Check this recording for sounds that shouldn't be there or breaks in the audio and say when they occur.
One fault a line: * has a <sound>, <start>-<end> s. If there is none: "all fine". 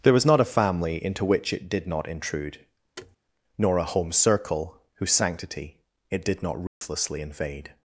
* has a thud, 3.0-3.2 s
* has a dropout, 6.7-6.8 s